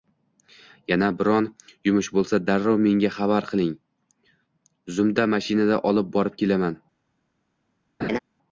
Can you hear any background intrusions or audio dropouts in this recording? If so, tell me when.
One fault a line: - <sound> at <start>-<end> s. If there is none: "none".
- laugh at 8.0-8.2 s